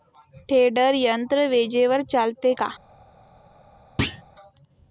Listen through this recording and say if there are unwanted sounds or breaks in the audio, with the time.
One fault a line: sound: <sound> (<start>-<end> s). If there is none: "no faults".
sound: thud (4.0-4.2 s)